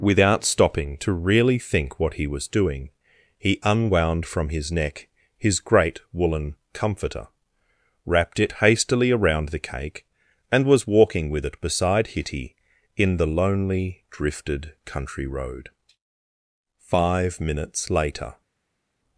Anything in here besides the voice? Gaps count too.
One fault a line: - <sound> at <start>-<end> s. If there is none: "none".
none